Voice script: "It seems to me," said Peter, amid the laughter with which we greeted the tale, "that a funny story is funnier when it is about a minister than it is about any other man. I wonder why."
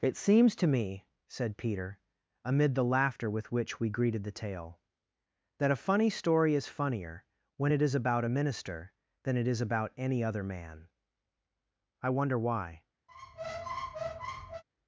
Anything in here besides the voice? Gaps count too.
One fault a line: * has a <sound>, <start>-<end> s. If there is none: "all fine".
* has a squeak, 13.1-14.6 s